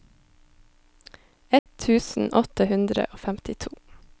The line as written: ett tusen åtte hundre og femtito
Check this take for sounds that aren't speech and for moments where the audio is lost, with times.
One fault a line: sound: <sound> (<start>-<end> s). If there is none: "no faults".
sound: dropout (1.6-1.7 s)